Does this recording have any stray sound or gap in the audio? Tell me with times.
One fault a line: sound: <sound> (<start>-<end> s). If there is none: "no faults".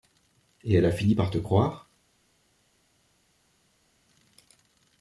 no faults